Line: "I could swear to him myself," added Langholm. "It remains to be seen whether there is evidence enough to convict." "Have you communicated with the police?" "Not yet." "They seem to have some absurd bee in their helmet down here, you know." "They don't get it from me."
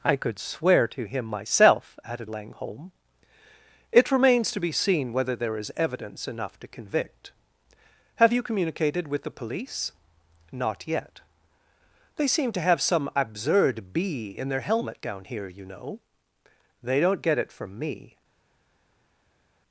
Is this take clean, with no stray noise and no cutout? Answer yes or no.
yes